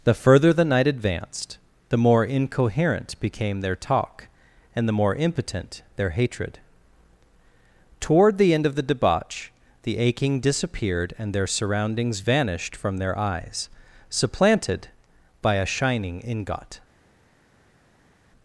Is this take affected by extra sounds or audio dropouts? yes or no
no